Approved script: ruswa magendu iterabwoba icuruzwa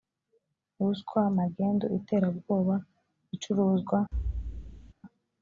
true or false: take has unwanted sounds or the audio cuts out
true